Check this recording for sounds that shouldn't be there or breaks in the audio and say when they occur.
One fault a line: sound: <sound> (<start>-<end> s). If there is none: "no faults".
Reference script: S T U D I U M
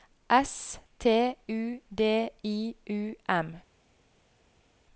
no faults